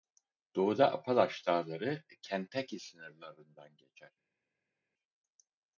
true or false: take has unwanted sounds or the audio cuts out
false